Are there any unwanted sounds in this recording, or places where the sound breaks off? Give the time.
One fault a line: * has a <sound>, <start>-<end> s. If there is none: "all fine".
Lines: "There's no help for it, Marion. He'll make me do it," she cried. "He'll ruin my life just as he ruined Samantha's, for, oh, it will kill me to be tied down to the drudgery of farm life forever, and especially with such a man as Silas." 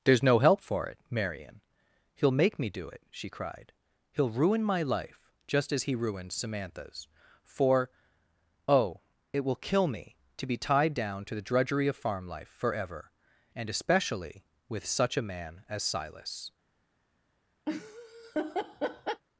* has a laugh, 17.7-19.2 s